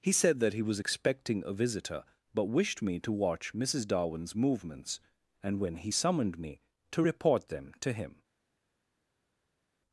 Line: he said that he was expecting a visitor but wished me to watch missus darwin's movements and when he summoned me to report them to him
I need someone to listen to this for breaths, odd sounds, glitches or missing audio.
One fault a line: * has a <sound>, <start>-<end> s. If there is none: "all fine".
all fine